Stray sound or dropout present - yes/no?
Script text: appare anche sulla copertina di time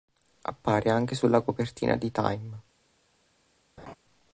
yes